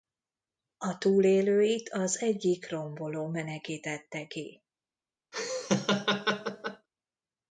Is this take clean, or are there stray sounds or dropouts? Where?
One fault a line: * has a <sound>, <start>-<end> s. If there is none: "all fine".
* has a laugh, 5.3-6.9 s